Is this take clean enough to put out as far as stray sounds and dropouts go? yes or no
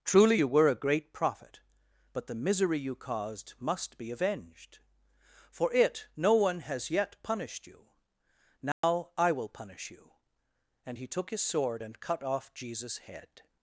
no